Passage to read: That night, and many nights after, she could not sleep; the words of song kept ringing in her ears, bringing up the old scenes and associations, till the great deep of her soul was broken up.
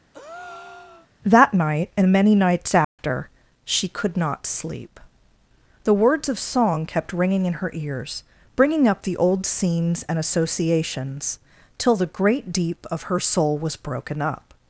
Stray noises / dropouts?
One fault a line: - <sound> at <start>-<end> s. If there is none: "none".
- breath at 0.1-1.1 s
- dropout at 2.8-3.0 s